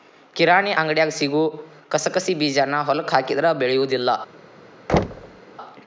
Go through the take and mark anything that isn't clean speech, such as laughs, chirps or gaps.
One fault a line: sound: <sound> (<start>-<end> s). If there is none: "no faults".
sound: thud (4.9-5.4 s)